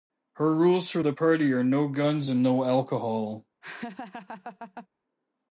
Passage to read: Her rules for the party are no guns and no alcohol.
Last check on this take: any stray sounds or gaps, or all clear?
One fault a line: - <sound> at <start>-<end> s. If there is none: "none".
- laugh at 3.6-4.9 s